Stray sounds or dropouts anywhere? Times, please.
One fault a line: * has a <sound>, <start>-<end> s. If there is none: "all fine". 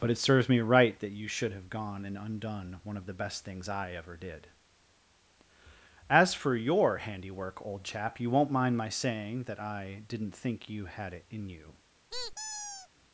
* has a squeak, 12.1-12.9 s